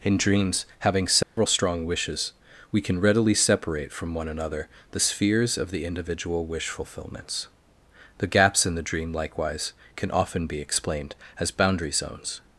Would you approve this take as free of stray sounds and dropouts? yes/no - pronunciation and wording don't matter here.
no